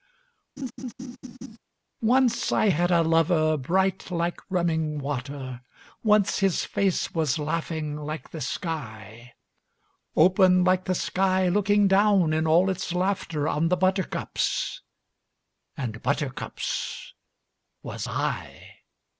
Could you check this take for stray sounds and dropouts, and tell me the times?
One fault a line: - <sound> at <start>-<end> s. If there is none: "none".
- laugh at 0.6-1.6 s